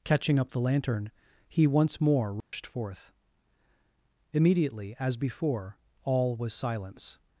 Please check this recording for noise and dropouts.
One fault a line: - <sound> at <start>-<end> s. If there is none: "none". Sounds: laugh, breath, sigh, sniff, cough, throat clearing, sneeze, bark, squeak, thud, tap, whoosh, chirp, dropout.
- dropout at 2.4-2.5 s